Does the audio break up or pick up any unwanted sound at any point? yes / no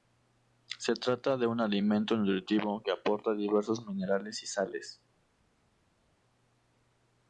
no